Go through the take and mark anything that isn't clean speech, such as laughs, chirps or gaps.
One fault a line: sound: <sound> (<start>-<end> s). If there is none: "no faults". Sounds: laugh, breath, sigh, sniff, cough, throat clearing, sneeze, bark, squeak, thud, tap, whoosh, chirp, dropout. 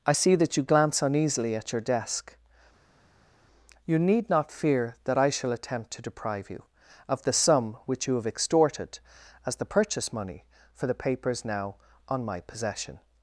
no faults